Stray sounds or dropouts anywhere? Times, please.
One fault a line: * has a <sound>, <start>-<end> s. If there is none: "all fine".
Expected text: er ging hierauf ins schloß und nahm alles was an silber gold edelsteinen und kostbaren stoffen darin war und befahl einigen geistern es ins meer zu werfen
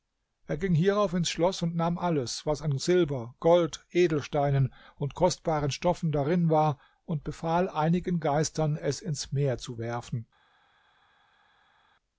all fine